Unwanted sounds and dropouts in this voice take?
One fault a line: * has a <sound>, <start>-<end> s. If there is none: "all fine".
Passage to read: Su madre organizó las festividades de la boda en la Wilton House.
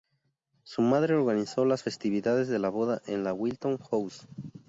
all fine